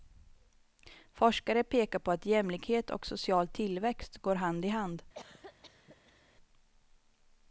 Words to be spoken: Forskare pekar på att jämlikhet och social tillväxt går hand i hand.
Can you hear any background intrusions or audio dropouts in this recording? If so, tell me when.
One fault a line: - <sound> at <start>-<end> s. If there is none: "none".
- cough at 5.1-6.2 s